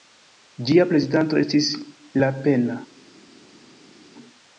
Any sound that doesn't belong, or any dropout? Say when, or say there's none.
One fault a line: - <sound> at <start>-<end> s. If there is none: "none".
none